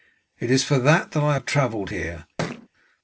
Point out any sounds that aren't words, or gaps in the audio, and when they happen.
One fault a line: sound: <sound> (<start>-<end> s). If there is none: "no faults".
sound: thud (2.4-2.7 s)